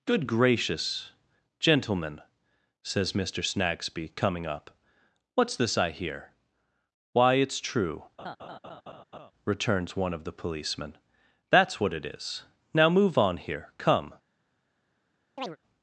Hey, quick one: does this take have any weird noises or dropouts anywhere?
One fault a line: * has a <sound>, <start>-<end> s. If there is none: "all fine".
* has a laugh, 8.2-9.3 s
* has a chirp, 15.4-15.6 s